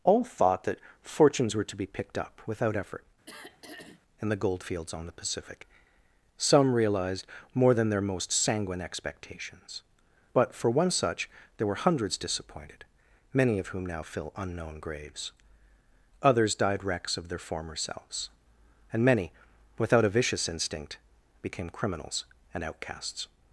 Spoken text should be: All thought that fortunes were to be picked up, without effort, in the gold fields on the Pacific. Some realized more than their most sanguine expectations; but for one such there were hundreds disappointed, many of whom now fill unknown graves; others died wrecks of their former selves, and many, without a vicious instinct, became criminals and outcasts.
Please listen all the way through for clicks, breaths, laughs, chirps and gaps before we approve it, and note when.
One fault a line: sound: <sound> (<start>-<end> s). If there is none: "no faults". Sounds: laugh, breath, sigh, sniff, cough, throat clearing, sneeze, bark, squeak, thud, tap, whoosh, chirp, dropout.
sound: throat clearing (3.3-4.0 s)